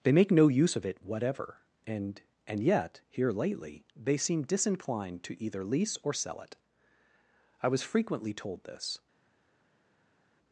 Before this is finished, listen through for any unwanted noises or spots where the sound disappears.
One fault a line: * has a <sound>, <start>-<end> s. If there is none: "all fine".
all fine